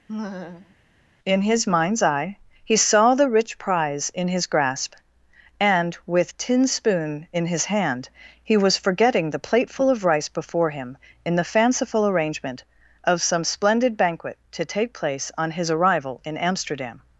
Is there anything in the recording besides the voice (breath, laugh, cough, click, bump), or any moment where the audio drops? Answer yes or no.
yes